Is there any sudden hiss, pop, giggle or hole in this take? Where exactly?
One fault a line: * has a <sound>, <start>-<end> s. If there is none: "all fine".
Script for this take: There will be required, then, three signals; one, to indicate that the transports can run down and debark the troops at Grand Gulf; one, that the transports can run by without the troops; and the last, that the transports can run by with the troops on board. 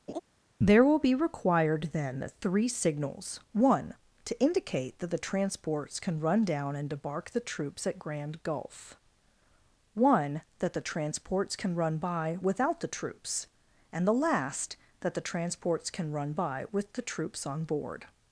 * has a laugh, 0.1-0.2 s